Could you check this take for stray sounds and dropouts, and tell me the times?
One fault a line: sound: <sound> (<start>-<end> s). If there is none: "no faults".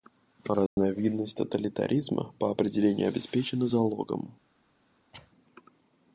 sound: dropout (0.7-0.8 s)
sound: cough (5.1-5.3 s)